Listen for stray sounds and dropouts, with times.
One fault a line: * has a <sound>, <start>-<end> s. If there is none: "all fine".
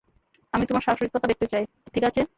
all fine